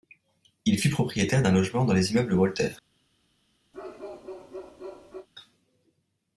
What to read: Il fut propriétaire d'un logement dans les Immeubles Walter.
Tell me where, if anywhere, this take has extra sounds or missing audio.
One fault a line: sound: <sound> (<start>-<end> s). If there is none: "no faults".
sound: bark (3.7-5.3 s)